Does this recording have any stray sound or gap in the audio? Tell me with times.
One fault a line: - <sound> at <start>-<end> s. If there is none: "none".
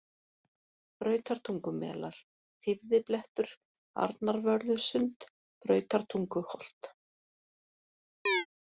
- chirp at 8.3-8.5 s